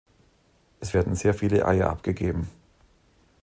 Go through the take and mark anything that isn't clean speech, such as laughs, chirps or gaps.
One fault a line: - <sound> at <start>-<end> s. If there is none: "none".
none